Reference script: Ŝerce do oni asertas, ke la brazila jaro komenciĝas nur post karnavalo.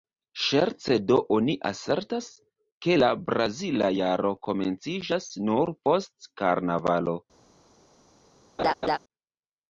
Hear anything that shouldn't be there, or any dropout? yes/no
yes